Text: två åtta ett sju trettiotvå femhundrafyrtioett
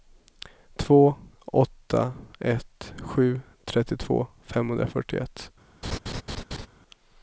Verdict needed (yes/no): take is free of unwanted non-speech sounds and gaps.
no